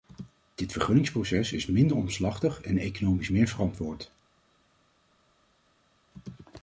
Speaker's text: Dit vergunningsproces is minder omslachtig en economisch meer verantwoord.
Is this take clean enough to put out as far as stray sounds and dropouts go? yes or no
yes